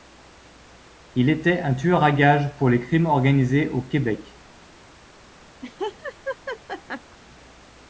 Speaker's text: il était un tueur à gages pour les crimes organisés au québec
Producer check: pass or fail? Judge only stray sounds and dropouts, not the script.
fail